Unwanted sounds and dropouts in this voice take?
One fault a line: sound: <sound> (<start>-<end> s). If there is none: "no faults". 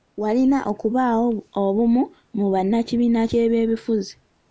no faults